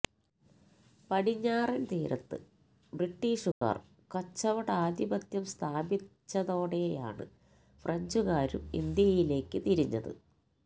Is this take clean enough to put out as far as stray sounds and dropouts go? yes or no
no